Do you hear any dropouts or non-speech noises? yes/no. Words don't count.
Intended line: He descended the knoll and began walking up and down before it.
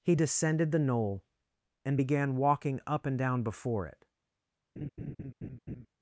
yes